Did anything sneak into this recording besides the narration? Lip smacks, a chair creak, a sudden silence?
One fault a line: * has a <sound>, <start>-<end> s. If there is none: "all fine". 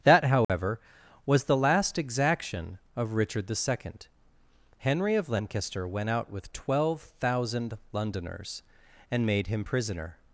* has a dropout, 0.4-0.5 s